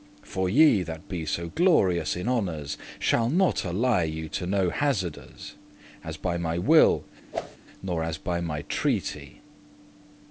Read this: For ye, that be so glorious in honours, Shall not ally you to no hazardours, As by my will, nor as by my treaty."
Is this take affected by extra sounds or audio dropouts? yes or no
yes